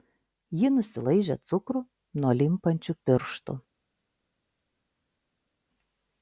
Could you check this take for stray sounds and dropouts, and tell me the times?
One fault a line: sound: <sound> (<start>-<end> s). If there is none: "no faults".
no faults